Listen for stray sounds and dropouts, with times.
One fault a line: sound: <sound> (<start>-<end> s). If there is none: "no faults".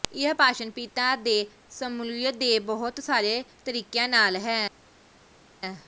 no faults